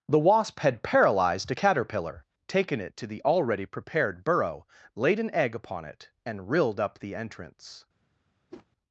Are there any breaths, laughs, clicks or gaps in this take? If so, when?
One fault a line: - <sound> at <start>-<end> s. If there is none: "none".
- whoosh at 8.5-8.7 s